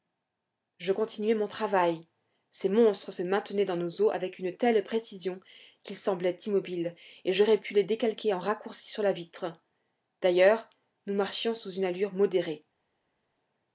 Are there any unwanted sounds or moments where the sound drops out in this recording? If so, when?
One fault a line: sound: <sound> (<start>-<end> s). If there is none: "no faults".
no faults